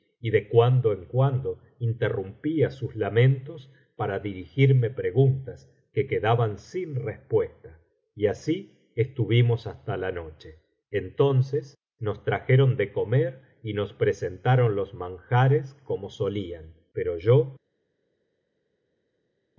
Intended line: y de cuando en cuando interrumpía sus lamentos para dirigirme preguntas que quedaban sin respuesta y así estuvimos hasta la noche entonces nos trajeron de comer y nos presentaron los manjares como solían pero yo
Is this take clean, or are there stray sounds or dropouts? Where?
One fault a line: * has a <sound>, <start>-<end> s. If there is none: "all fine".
all fine